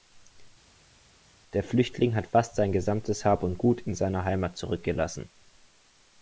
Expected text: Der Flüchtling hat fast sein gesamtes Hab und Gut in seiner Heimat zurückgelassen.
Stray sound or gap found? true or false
false